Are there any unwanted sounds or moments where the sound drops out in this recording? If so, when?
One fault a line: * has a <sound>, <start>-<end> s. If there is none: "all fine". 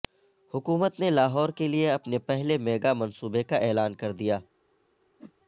* has a whoosh, 5.2-5.3 s